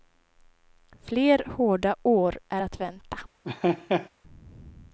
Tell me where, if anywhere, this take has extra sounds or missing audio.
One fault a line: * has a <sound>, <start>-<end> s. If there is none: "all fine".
* has a laugh, 3.4-4.1 s